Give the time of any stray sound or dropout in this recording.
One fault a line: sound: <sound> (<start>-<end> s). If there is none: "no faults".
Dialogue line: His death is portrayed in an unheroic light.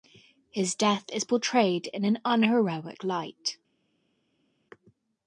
no faults